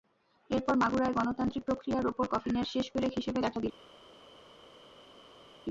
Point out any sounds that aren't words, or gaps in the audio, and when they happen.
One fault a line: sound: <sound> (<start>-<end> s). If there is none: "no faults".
no faults